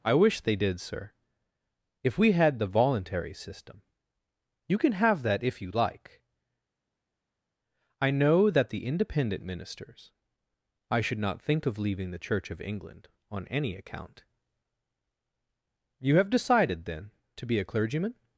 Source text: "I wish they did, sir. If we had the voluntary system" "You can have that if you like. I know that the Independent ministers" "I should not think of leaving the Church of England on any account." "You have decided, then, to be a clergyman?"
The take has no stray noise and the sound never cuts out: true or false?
true